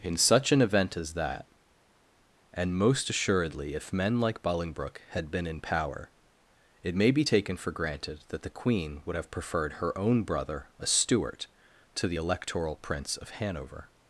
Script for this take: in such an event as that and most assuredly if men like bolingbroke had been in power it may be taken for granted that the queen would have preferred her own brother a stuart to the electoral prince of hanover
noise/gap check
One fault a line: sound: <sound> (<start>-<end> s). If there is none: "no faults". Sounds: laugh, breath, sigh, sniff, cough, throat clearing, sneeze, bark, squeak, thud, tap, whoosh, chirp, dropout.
no faults